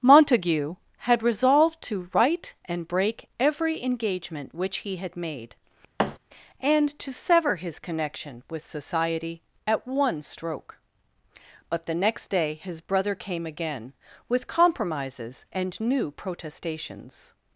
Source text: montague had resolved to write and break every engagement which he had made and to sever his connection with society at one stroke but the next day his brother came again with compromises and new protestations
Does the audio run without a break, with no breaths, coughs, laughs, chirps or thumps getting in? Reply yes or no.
no